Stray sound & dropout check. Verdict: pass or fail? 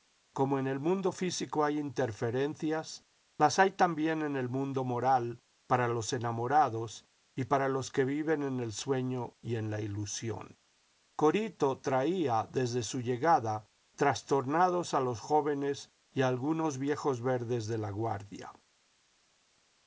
pass